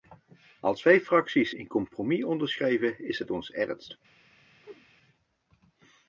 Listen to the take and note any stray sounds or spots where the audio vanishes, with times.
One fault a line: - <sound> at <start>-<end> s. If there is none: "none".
- whoosh at 4.6-4.9 s